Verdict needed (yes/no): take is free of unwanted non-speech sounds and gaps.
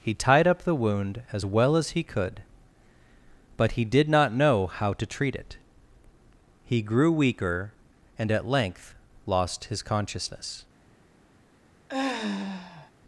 no